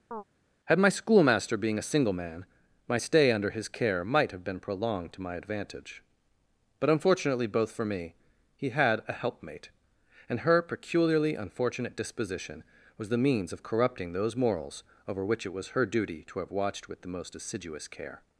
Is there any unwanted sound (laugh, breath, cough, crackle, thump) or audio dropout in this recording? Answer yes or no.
yes